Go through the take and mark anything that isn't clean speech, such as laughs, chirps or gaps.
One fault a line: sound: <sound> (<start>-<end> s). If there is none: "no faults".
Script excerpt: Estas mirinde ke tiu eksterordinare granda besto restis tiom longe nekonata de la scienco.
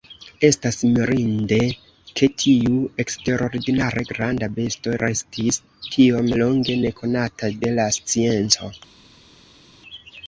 no faults